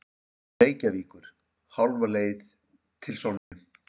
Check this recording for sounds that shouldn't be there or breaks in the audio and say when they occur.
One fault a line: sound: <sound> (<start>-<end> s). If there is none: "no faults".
sound: dropout (3.4-3.5 s)